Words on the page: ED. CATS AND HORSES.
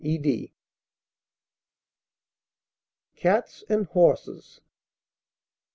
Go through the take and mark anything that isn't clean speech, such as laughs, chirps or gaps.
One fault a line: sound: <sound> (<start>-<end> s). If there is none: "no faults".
no faults